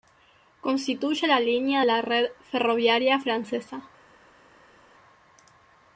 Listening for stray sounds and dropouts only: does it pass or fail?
pass